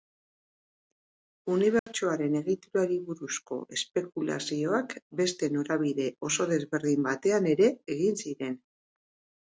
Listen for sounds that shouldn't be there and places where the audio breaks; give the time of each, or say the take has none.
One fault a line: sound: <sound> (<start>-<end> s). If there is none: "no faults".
sound: dropout (1.8-1.9 s)